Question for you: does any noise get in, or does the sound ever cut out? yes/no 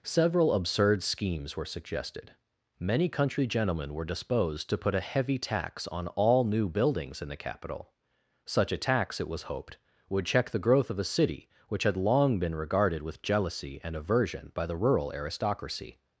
no